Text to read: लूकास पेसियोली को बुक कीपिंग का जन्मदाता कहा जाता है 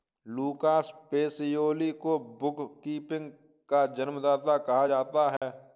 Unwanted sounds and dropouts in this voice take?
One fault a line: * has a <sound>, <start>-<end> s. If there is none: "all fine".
* has a dropout, 5.4-5.4 s